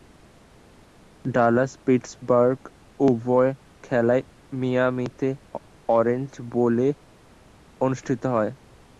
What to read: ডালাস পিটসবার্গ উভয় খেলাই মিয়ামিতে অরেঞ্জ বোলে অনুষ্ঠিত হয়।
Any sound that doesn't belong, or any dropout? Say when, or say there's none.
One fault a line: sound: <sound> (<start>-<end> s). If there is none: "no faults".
no faults